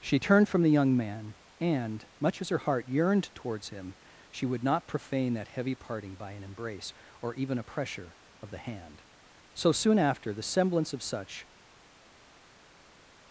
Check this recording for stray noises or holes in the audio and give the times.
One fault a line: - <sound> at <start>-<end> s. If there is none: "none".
none